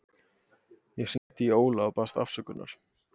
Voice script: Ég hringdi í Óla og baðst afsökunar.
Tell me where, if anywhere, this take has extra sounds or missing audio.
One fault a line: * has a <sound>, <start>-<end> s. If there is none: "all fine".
* has a dropout, 1.2-1.3 s